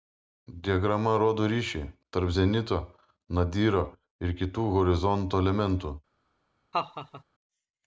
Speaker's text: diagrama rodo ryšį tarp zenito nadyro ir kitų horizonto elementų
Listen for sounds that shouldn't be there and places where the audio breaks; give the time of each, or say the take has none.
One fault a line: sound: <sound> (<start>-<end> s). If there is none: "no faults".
sound: laugh (6.7-7.2 s)